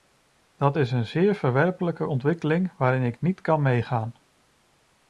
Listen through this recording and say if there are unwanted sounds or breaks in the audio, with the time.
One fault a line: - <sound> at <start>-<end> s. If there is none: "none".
none